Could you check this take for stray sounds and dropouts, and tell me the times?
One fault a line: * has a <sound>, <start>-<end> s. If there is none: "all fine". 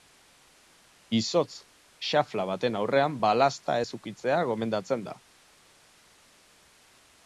all fine